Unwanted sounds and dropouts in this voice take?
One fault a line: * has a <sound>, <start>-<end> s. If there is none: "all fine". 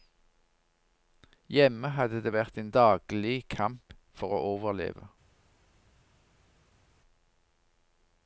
all fine